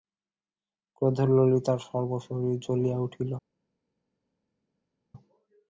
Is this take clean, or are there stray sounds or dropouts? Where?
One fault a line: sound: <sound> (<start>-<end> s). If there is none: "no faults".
no faults